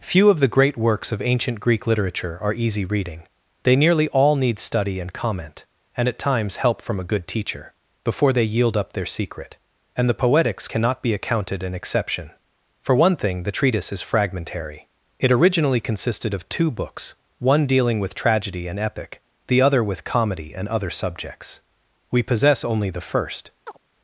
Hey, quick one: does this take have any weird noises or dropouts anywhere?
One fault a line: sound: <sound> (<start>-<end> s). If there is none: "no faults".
sound: chirp (23.7-23.8 s)